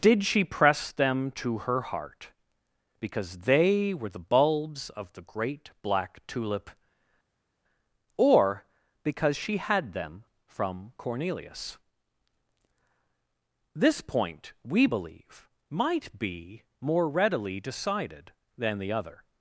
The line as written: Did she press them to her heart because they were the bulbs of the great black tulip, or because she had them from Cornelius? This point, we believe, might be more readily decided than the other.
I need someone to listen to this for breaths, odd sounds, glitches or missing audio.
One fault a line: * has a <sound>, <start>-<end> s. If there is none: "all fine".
all fine